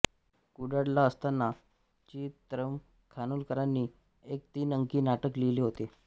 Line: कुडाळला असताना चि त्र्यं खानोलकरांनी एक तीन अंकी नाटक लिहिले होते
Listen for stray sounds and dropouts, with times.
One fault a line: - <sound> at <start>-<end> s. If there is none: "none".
none